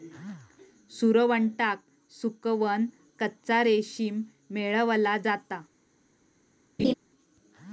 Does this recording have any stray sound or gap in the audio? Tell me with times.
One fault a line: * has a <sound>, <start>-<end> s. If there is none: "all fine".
* has a laugh, 6.8-6.9 s